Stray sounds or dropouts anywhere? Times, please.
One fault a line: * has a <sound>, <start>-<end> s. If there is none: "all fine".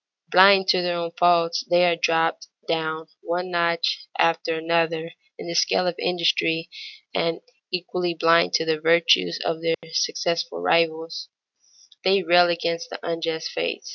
* has a dropout, 9.7-9.8 s